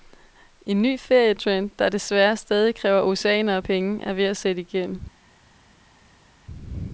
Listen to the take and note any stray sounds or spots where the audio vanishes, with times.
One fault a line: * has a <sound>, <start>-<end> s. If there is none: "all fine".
all fine